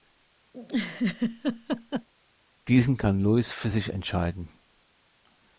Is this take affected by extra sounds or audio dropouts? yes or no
yes